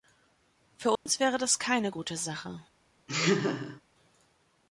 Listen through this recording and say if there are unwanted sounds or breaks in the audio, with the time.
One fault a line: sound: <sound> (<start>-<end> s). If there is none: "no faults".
sound: dropout (1.0-1.1 s)
sound: laugh (3.1-3.8 s)